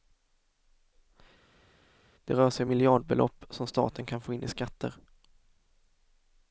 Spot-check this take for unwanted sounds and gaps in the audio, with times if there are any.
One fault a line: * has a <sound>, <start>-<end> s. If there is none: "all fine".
all fine